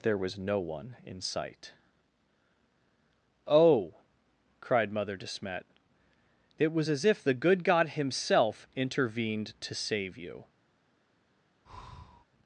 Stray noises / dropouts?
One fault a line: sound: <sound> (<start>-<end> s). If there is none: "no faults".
sound: breath (11.6-12.2 s)